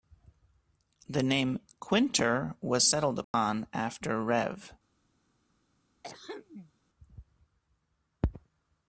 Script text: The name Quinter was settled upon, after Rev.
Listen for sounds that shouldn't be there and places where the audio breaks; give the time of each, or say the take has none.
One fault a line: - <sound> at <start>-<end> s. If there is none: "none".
- dropout at 3.2-3.3 s
- throat clearing at 6.0-6.7 s